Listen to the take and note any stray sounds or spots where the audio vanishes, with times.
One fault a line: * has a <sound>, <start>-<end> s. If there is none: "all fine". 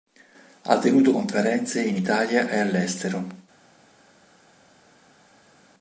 all fine